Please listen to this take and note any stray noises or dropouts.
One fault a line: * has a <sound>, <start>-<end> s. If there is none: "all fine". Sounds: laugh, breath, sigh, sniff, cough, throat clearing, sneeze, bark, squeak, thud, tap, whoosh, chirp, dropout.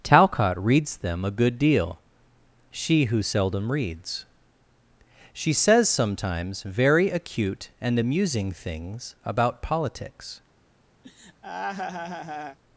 * has a laugh, 11.0-12.6 s